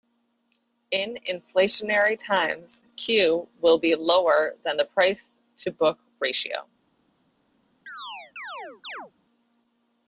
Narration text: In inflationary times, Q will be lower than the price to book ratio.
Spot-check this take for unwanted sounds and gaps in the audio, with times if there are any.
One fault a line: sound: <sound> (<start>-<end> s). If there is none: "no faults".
sound: chirp (7.9-9.1 s)